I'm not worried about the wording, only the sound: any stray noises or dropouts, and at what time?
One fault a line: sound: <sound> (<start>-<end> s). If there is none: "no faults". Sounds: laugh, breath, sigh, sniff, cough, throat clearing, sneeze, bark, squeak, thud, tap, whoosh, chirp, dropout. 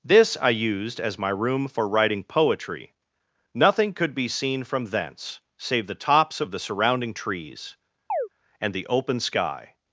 sound: chirp (8.1-8.3 s)